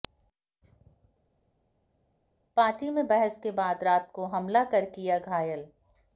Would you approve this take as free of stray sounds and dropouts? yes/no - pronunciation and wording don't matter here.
yes